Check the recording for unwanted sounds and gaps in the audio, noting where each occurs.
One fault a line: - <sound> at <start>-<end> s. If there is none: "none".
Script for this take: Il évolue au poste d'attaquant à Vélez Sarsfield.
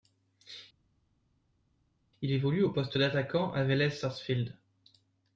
none